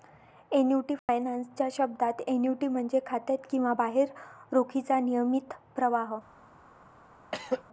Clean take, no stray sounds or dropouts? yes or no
no